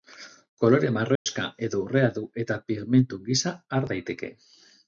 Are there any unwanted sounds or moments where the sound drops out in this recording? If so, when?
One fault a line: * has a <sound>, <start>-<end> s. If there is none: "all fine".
* has a dropout, 1.2-1.3 s